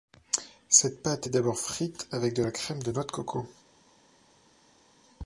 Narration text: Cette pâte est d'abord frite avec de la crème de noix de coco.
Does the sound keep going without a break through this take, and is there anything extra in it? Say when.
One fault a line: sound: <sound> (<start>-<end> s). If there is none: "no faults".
no faults